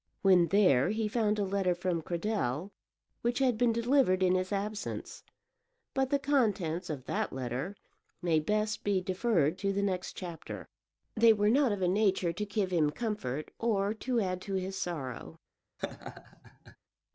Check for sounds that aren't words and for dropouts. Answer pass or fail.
fail